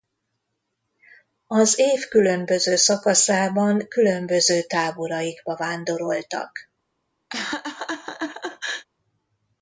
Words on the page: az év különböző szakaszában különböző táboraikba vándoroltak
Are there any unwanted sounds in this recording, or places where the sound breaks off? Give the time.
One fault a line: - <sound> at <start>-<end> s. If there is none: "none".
- laugh at 7.3-8.9 s